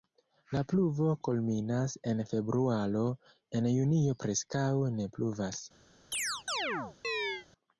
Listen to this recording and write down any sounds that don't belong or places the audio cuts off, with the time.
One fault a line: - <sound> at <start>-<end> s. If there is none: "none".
- chirp at 6.1-7.5 s